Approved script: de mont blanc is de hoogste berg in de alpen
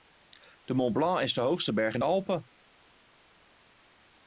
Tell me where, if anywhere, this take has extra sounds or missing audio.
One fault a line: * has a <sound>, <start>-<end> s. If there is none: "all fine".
all fine